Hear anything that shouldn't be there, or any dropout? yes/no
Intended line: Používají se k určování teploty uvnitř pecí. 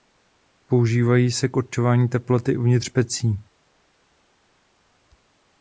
no